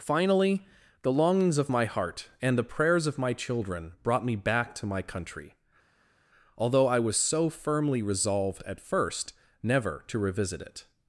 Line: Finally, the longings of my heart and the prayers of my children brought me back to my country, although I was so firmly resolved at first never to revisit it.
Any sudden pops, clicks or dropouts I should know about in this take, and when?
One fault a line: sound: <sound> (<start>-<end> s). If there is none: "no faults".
no faults